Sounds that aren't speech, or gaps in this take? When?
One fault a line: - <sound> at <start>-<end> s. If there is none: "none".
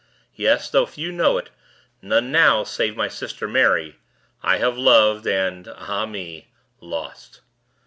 none